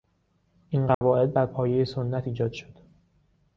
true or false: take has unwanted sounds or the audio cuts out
true